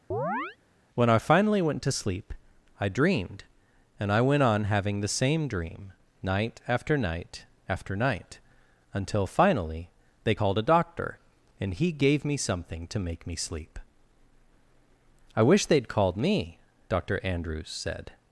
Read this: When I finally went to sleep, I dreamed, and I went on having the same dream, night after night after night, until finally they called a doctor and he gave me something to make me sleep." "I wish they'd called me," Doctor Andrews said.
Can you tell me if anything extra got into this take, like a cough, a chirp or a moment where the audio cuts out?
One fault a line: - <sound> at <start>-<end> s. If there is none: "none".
- chirp at 0.1-0.6 s